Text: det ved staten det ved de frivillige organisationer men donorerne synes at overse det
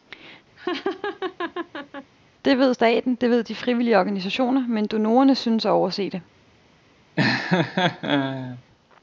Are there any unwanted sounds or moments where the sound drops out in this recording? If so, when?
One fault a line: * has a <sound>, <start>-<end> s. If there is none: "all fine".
* has a laugh, 0.6-2.1 s
* has a laugh, 7.2-8.6 s